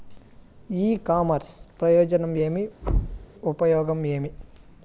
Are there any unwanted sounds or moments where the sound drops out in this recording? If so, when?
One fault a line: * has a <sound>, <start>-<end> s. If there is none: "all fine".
* has a thud, 2.8-3.3 s